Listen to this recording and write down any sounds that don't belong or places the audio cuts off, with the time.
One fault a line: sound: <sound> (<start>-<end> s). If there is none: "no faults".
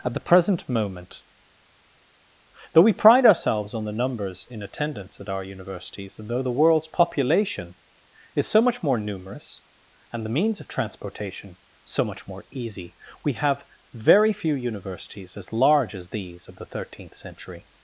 no faults